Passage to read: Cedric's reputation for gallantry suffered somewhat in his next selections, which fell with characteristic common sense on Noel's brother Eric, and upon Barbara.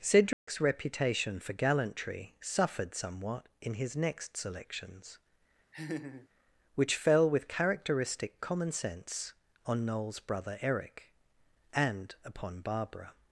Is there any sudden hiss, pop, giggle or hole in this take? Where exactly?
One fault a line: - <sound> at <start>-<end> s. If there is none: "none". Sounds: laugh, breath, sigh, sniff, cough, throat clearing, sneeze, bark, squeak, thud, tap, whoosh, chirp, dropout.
- dropout at 0.3-0.5 s
- laugh at 5.7-6.3 s